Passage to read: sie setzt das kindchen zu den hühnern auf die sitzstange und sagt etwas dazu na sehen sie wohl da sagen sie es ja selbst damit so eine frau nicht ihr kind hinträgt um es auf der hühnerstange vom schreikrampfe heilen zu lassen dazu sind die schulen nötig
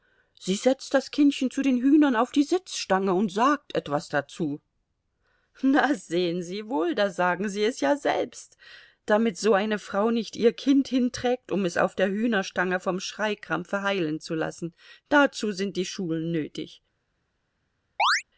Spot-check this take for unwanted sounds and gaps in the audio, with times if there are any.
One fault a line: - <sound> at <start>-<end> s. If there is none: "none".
- chirp at 18.0-18.2 s